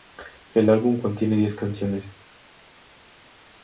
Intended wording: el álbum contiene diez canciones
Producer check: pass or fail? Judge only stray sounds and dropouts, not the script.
pass